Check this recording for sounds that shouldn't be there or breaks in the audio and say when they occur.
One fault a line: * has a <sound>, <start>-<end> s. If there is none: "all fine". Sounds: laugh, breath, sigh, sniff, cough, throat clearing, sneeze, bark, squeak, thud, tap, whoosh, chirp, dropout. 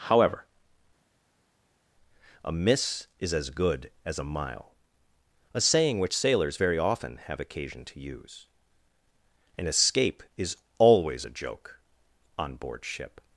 all fine